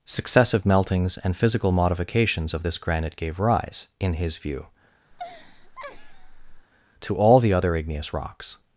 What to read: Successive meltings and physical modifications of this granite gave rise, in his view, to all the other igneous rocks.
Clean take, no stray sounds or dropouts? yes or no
no